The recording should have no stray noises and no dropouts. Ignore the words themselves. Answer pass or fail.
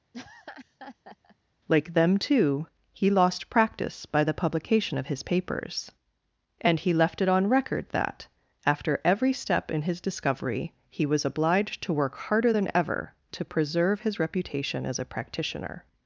fail